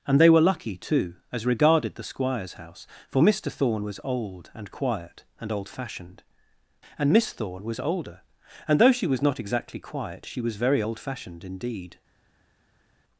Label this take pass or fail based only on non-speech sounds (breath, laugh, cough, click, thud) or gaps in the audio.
pass